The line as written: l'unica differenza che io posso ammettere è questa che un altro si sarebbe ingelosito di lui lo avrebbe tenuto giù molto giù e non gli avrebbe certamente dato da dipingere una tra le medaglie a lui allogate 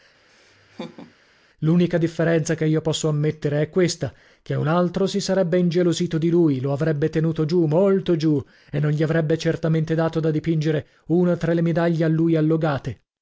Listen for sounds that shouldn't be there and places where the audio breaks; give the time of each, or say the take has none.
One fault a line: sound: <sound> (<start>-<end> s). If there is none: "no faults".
sound: laugh (0.3-1.1 s)